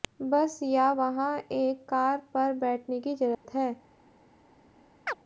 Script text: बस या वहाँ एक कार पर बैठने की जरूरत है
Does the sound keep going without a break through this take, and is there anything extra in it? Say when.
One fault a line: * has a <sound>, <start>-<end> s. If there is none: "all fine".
* has a dropout, 3.3-3.5 s
* has a chirp, 5.1-5.2 s